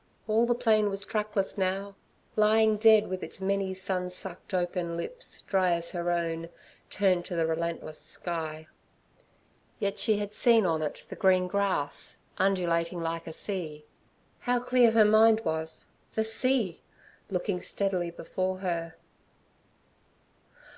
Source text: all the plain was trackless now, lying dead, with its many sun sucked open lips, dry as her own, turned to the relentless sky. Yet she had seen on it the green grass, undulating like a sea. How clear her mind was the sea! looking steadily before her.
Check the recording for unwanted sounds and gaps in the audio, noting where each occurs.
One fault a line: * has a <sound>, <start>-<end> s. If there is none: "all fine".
all fine